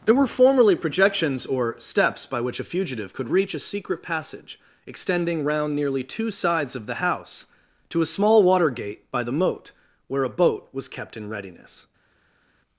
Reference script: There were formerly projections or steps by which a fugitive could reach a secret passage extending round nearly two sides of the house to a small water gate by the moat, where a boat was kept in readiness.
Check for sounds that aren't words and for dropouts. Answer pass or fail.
pass